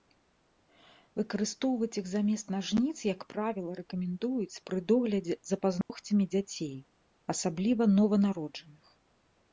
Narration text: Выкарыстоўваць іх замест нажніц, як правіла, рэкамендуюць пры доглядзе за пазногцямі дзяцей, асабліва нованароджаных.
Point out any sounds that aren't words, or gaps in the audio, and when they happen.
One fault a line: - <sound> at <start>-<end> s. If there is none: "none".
- dropout at 5.8-5.9 s